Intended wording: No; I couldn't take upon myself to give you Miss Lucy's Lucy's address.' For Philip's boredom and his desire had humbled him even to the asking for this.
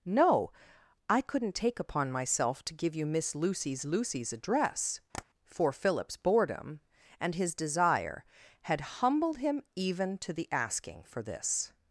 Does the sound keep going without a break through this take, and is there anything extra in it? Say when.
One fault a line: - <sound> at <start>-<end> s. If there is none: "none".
- tap at 5.1-5.2 s